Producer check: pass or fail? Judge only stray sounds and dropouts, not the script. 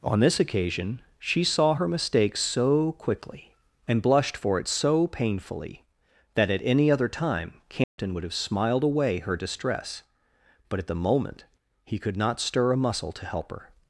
fail